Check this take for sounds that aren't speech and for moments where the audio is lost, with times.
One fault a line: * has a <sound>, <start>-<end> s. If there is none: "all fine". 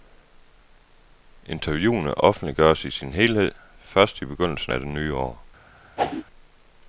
* has a whoosh, 6.0-6.2 s